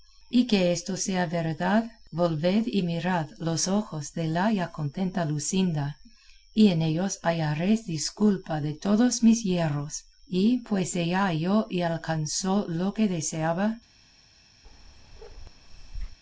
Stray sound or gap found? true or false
true